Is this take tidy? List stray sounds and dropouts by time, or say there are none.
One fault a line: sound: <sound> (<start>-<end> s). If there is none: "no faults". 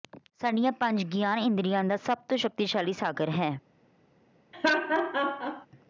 sound: laugh (4.5-5.7 s)